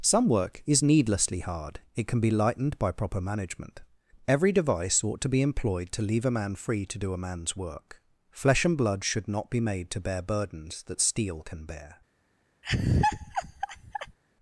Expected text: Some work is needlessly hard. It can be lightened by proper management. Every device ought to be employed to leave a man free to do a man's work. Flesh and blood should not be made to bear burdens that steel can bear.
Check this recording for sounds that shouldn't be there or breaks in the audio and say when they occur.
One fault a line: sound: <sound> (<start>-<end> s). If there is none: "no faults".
sound: laugh (12.6-14.2 s)